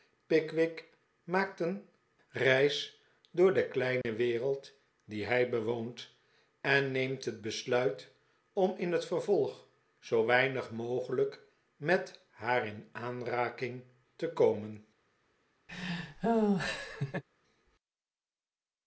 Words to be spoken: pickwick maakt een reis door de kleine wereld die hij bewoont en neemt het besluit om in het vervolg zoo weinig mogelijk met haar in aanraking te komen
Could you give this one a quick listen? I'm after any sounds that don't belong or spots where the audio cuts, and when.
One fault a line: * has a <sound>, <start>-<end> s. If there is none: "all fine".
* has a dropout, 4.0-4.0 s
* has a laugh, 15.7-17.2 s